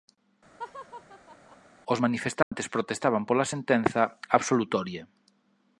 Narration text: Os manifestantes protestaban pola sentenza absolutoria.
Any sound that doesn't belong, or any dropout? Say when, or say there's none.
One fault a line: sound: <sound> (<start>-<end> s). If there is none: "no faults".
sound: laugh (0.6-1.6 s)
sound: dropout (2.4-2.5 s)